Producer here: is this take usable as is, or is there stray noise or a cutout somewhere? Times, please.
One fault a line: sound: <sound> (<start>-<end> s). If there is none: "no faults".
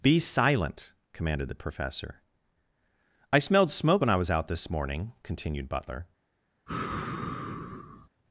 sound: sigh (6.7-8.1 s)